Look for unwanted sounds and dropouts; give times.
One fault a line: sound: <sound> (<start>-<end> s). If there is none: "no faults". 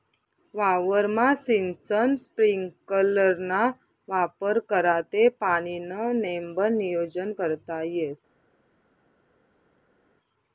no faults